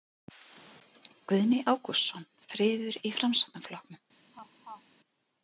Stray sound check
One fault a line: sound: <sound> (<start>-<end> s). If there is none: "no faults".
sound: laugh (4.3-4.8 s)